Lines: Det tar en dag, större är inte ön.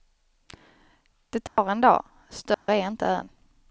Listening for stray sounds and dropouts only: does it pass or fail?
fail